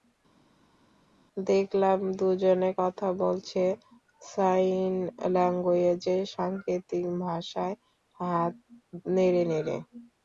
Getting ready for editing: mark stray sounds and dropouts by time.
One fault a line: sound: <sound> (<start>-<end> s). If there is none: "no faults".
no faults